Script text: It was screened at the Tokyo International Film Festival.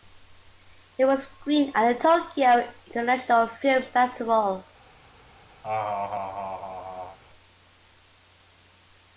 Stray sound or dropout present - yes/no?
yes